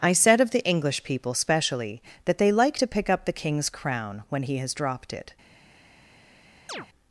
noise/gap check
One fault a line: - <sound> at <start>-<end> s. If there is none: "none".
- chirp at 6.7-6.9 s